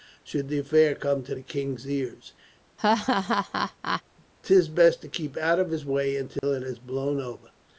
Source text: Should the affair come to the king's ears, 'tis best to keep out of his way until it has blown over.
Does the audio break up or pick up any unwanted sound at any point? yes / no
yes